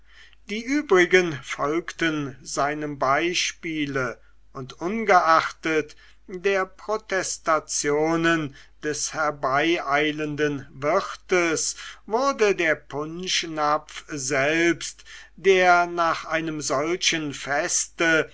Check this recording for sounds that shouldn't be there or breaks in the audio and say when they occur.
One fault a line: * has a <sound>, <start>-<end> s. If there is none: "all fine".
all fine